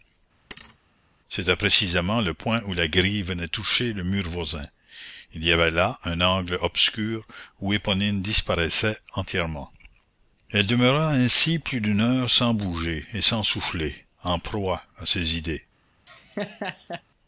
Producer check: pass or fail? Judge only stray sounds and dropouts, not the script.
fail